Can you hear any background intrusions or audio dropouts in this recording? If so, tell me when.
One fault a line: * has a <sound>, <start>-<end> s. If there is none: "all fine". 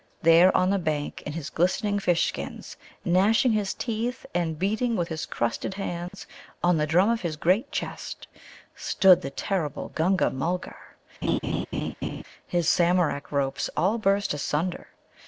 * has a dropout, 6.1-6.1 s
* has a laugh, 11.2-12.2 s